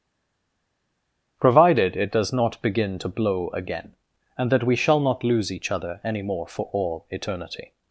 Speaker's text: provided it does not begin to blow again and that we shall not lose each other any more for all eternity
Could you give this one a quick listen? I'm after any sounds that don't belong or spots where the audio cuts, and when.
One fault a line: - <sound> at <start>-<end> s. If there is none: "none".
none